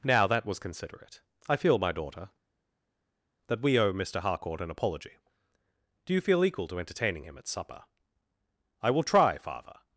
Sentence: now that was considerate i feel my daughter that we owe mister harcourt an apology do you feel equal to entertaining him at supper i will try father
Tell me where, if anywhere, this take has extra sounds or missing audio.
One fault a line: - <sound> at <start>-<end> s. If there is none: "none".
none